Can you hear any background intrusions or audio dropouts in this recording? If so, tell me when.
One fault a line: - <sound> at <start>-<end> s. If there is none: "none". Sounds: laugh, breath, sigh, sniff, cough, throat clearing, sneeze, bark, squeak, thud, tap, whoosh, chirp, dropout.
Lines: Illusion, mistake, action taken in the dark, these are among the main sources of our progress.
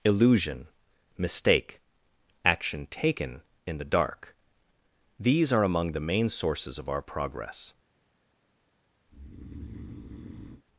- breath at 9.1-10.6 s